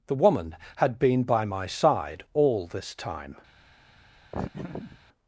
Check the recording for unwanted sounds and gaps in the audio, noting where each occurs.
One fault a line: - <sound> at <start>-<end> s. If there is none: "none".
- laugh at 4.3-5.0 s